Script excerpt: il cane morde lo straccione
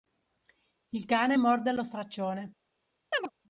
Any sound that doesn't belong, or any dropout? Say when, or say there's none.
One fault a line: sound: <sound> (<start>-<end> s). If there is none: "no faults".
sound: chirp (3.1-3.3 s)